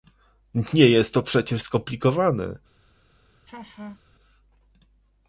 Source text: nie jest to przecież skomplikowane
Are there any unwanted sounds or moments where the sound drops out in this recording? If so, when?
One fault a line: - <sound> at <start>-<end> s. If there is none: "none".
- laugh at 3.5-4.0 s